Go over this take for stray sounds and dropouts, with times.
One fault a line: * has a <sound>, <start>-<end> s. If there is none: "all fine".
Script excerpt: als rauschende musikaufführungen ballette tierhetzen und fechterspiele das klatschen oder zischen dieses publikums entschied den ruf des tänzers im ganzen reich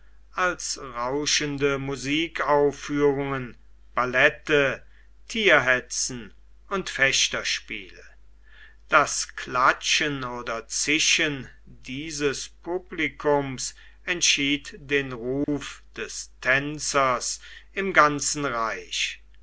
* has a dropout, 15.4-15.5 s